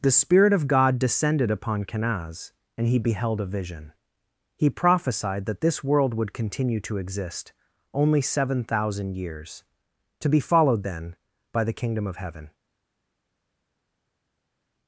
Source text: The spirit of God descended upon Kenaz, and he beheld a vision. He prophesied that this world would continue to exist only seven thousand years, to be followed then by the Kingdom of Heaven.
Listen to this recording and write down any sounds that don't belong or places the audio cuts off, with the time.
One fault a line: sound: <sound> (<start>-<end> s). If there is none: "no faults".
no faults